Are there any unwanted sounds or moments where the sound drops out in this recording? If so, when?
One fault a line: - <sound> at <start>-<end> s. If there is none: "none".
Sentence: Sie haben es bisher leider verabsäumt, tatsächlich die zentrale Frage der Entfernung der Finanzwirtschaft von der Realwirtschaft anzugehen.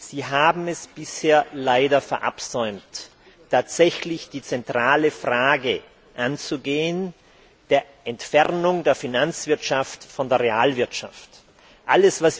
none